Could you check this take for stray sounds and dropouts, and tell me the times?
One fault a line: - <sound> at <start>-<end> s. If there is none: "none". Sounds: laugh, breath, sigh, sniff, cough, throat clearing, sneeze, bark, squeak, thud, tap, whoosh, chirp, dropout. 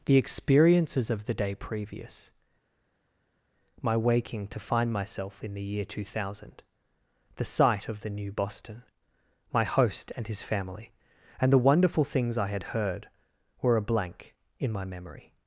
none